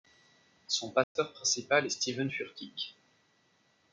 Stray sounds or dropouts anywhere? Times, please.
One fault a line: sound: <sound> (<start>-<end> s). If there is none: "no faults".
sound: dropout (1.0-1.2 s)